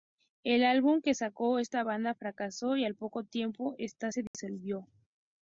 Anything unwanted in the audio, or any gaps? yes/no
yes